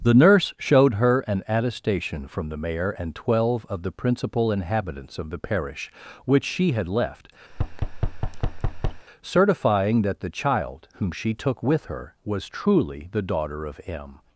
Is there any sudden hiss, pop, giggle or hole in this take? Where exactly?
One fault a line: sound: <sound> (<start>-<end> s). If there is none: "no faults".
sound: thud (7.5-9.0 s)